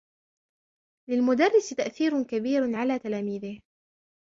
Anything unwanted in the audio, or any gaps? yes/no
no